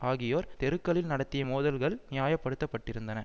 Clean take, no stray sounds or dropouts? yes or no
yes